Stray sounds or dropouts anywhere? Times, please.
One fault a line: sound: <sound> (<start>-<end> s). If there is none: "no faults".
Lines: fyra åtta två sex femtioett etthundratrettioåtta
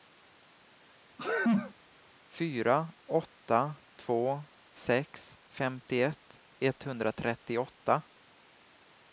sound: sneeze (1.2-1.7 s)